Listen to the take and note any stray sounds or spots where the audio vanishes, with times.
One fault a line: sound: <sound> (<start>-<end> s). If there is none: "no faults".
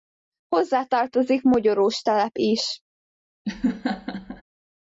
sound: laugh (3.4-4.4 s)